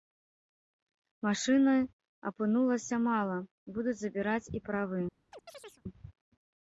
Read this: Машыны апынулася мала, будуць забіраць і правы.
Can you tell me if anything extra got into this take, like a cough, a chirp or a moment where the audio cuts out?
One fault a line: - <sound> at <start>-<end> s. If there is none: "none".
- chirp at 5.3-5.8 s